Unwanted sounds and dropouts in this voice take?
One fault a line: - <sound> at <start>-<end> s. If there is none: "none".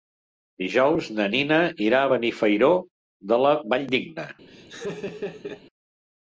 - laugh at 4.5-5.6 s